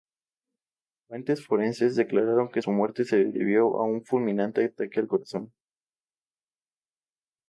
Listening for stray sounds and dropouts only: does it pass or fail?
pass